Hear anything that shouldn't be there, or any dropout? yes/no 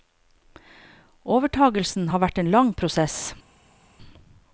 no